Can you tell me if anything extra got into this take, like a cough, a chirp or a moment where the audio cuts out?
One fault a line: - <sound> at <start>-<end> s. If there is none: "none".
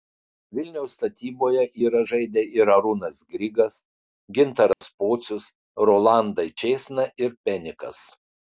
- dropout at 4.7-4.8 s